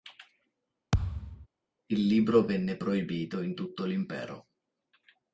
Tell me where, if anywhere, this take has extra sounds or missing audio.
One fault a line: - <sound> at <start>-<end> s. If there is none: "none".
- thud at 0.9-1.5 s